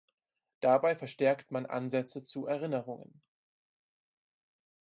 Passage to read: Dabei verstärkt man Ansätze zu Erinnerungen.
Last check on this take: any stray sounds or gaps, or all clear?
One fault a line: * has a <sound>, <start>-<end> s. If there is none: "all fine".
all fine